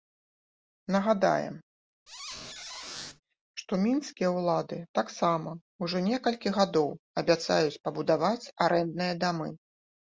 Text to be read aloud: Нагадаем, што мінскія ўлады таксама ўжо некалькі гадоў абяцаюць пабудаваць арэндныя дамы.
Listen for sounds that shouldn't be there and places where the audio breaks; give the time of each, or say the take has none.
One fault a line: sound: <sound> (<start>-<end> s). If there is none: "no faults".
sound: squeak (2.1-3.2 s)